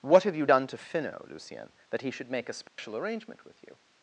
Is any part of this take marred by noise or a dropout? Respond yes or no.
yes